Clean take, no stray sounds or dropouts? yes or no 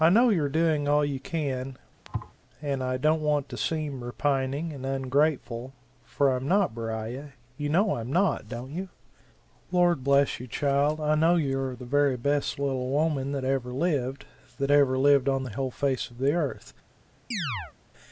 no